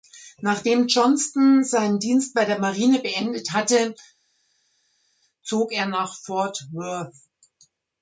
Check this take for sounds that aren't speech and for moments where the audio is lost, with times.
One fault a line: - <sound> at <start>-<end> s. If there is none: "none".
none